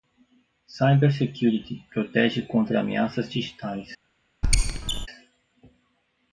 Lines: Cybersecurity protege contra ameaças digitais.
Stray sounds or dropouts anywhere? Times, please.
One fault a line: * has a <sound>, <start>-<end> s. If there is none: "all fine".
* has a squeak, 4.4-5.1 s